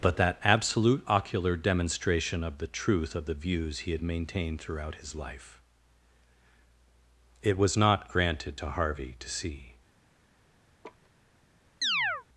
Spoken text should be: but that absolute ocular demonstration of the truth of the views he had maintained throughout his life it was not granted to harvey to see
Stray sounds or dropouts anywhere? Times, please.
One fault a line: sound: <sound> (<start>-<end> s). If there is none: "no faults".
sound: laugh (10.8-11.1 s)
sound: chirp (11.8-12.2 s)